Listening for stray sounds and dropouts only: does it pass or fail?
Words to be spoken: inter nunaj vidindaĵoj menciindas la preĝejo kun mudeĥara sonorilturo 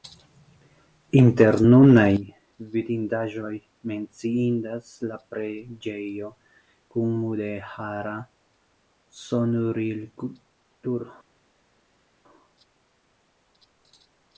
pass